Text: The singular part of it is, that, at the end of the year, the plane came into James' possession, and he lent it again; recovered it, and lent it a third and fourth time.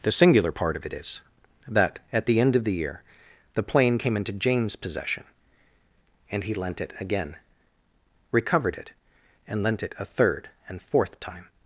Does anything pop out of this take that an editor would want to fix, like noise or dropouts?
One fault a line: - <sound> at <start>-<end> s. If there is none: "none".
none